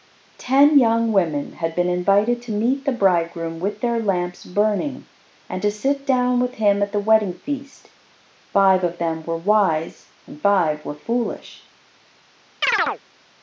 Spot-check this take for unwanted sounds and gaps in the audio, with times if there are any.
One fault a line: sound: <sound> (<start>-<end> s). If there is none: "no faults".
sound: chirp (12.6-13.0 s)